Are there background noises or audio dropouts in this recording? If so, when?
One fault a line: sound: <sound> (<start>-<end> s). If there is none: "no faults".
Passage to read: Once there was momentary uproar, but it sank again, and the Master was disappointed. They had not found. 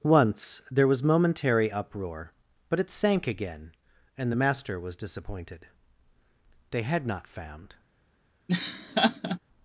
sound: laugh (8.5-9.4 s)